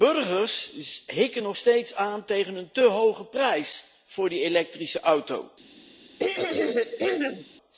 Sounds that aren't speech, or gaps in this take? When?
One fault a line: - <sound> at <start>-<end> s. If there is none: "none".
- throat clearing at 6.2-7.4 s